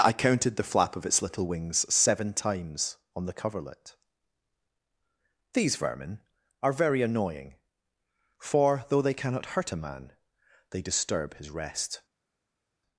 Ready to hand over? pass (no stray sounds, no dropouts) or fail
pass